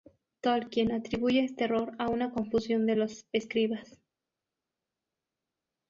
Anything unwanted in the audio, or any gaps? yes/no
no